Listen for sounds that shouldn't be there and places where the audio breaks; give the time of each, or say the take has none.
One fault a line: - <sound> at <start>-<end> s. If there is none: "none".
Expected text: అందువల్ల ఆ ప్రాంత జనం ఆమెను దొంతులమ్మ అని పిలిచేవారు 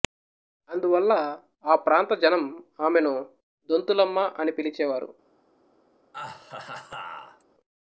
- laugh at 6.1-7.4 s